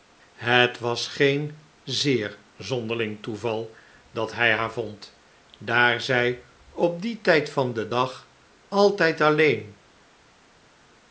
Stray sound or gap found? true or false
false